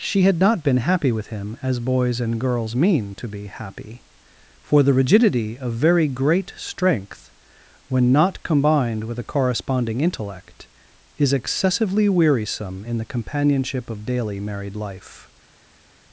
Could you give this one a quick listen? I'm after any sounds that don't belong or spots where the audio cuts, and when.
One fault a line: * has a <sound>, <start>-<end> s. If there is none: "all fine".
all fine